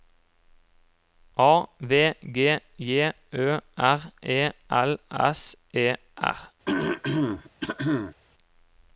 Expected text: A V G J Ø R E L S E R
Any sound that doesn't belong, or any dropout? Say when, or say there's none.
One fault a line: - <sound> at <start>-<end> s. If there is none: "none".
- throat clearing at 6.7-8.2 s